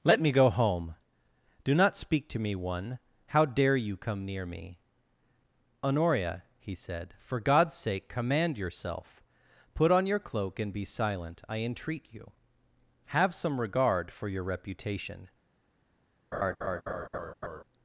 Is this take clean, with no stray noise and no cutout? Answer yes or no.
no